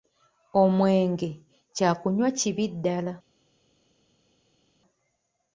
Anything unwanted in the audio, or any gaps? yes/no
no